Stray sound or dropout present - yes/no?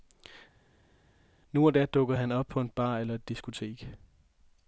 no